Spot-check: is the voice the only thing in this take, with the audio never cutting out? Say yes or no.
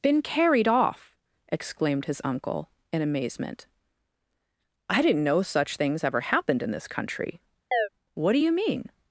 no